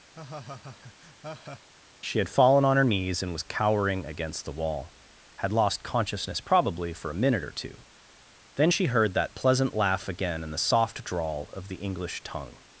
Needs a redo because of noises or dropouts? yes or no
yes